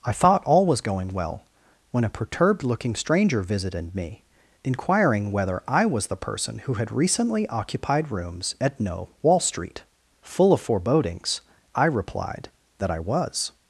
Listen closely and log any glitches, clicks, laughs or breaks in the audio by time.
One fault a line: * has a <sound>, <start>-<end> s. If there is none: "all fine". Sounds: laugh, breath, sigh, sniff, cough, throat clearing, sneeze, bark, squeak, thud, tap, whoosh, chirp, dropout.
all fine